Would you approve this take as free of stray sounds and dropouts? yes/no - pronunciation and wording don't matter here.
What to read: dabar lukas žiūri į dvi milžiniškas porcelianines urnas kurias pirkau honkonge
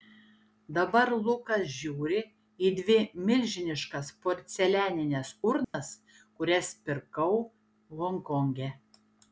no